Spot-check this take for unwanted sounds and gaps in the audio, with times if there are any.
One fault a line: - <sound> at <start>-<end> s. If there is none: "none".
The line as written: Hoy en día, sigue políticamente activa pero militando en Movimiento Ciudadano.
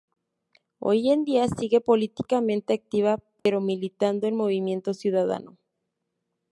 - dropout at 3.4-3.5 s